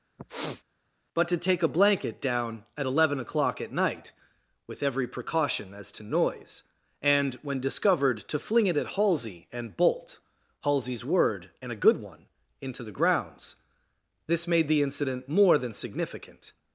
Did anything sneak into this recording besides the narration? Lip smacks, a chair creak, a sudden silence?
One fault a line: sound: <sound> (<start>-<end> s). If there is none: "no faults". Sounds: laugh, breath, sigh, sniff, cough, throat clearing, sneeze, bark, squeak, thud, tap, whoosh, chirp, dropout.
sound: sniff (0.2-0.6 s)